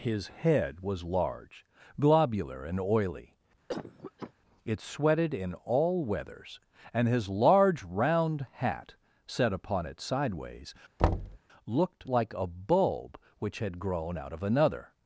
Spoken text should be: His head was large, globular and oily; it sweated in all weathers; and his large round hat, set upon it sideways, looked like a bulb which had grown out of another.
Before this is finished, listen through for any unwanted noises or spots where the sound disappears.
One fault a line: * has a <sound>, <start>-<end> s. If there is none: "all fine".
* has a cough, 3.7-4.3 s
* has a thud, 11.0-11.4 s